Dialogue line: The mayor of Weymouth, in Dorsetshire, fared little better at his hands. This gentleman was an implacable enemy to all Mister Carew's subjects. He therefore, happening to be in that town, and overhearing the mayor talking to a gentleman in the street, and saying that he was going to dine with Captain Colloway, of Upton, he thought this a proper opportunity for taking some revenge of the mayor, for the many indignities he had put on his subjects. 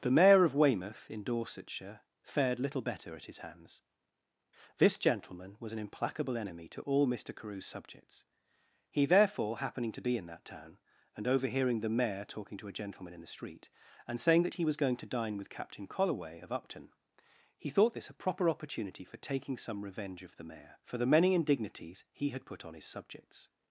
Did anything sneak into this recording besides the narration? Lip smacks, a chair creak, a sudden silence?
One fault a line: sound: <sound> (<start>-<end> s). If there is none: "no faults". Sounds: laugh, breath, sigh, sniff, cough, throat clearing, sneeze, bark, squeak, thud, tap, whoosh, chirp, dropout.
no faults